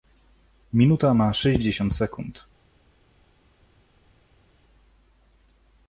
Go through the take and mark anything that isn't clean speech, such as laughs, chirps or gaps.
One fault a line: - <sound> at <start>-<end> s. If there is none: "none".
none